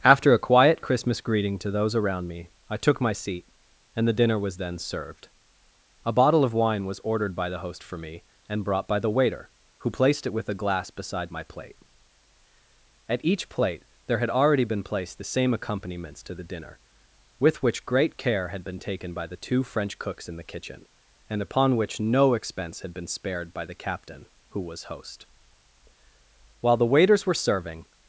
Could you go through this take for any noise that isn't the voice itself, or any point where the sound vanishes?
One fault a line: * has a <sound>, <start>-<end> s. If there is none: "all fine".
all fine